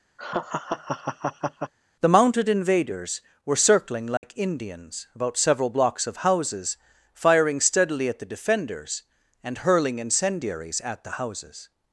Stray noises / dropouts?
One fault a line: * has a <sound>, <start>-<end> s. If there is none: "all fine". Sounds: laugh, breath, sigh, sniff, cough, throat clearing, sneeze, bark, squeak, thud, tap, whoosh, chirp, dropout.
* has a laugh, 0.2-1.7 s
* has a dropout, 4.2-4.2 s